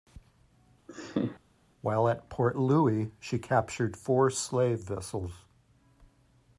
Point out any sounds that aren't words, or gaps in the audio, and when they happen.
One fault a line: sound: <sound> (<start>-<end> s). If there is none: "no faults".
sound: laugh (0.9-1.4 s)